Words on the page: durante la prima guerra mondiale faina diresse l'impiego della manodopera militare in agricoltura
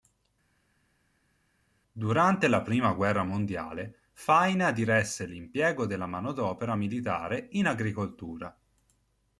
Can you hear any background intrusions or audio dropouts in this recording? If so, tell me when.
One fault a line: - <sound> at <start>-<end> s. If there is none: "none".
none